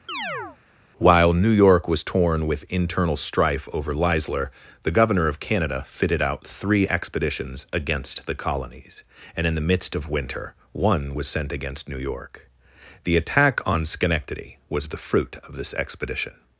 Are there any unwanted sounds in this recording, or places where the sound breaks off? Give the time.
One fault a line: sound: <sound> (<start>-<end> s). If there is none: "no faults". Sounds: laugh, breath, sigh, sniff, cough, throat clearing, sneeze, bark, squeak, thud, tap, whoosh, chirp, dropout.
sound: chirp (0.1-0.6 s)